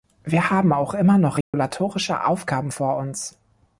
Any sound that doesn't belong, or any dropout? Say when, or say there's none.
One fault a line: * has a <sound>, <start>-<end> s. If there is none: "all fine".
* has a dropout, 1.4-1.5 s